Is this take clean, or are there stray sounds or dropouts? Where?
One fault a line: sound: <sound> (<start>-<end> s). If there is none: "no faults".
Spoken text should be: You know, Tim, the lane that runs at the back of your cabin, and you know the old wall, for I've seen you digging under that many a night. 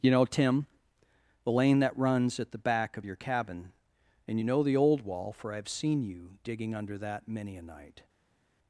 no faults